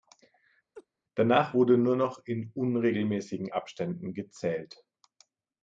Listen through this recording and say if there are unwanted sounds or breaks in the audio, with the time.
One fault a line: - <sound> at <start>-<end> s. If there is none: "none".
- laugh at 0.7-0.9 s